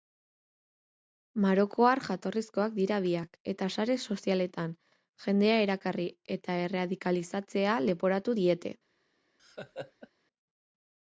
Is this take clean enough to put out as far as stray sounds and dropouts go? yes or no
no